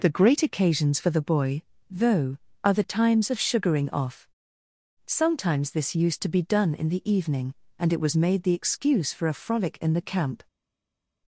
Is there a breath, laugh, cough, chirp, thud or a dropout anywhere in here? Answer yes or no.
no